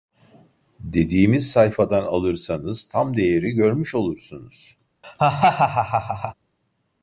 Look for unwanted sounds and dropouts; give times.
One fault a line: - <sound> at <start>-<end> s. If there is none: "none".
- laugh at 5.0-6.3 s